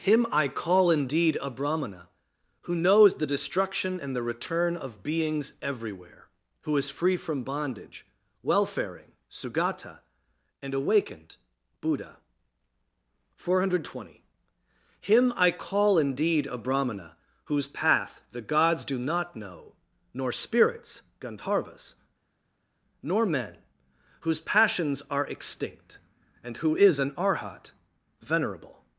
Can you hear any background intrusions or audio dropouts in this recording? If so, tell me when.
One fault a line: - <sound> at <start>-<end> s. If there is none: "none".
none